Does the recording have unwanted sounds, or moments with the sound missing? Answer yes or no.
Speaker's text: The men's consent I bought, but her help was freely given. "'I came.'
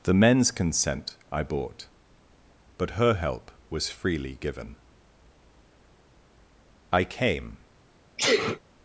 yes